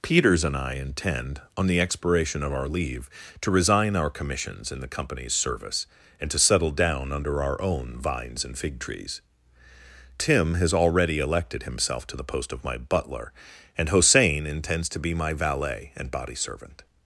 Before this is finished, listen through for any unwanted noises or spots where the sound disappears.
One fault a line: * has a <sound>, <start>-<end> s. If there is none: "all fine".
all fine